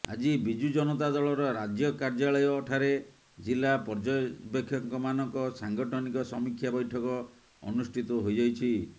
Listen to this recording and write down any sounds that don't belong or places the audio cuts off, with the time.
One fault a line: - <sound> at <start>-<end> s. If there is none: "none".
none